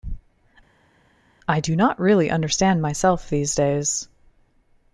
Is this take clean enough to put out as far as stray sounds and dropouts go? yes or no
yes